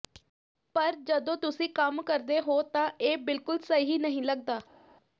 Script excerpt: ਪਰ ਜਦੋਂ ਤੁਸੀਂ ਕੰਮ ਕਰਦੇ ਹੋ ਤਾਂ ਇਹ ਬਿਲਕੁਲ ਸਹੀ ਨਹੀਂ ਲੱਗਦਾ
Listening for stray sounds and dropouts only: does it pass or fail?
pass